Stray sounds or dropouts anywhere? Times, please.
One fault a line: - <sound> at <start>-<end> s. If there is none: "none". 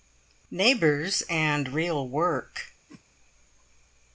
- whoosh at 2.9-3.0 s